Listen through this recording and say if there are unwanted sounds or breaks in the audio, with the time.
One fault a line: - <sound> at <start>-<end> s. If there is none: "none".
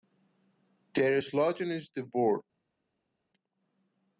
none